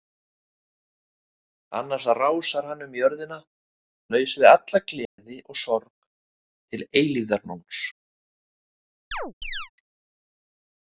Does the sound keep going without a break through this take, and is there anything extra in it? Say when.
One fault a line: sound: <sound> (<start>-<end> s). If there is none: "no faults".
sound: dropout (5.0-5.2 s)
sound: chirp (9.1-9.7 s)